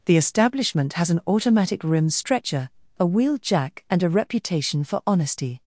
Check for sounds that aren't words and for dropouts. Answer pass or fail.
pass